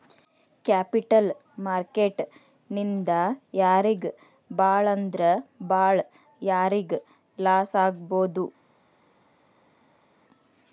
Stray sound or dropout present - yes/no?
no